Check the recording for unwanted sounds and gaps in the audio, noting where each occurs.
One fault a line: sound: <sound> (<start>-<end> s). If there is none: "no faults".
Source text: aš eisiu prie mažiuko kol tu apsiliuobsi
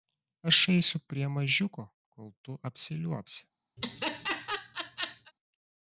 sound: laugh (3.8-5.3 s)